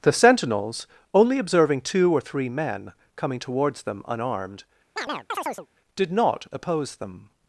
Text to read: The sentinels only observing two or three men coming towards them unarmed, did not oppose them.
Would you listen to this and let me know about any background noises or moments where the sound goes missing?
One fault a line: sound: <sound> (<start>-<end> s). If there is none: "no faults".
sound: chirp (5.0-5.7 s)